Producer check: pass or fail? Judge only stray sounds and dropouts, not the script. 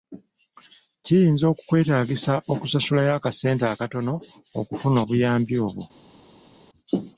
pass